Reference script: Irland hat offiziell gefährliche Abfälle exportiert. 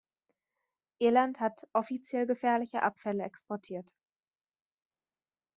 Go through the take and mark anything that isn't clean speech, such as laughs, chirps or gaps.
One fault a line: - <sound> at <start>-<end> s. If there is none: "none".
none